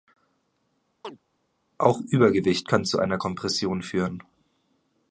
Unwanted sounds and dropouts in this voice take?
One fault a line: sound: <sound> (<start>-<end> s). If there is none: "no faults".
sound: chirp (1.0-1.2 s)